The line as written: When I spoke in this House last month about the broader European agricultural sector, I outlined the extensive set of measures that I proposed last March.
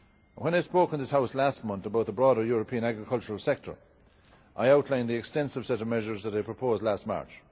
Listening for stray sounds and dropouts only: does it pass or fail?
pass